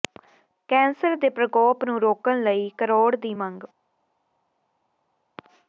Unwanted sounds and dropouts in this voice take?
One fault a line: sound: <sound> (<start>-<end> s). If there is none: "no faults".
no faults